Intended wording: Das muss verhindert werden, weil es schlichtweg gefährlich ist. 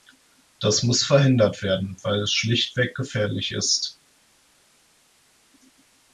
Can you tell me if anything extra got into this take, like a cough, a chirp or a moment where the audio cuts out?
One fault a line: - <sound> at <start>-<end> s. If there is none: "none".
none